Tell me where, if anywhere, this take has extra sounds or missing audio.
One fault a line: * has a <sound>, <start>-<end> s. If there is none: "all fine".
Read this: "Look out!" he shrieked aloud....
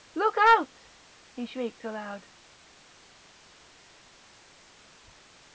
all fine